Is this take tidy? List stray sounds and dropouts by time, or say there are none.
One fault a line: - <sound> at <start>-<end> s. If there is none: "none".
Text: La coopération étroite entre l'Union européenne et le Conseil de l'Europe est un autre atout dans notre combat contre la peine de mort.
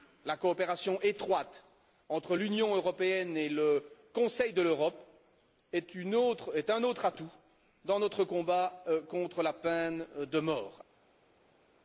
none